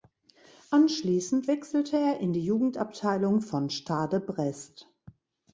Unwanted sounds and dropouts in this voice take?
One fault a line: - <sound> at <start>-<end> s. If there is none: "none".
none